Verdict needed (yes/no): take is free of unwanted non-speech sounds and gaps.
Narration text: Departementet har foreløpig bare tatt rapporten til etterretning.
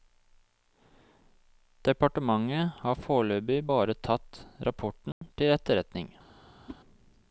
no